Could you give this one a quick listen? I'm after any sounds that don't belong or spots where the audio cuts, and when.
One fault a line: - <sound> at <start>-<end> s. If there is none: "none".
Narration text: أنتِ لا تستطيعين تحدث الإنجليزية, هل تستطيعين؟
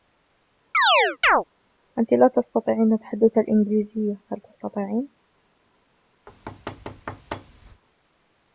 - chirp at 0.7-1.4 s
- thud at 6.3-7.8 s